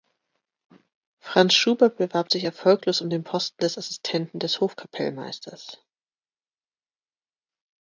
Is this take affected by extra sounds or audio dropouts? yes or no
no